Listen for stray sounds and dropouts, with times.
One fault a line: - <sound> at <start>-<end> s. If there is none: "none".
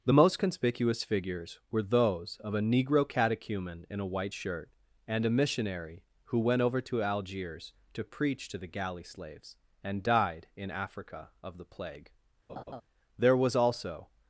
- laugh at 12.5-12.8 s